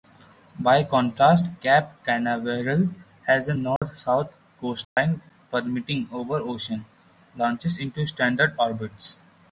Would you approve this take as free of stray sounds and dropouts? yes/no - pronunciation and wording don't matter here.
no